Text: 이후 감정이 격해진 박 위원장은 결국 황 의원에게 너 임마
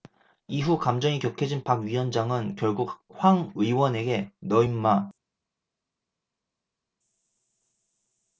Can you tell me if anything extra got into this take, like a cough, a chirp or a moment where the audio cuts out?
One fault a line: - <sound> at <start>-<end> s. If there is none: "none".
none